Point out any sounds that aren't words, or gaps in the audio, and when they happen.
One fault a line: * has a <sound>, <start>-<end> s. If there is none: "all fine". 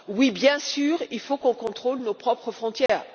* has a dropout, 2.9-2.9 s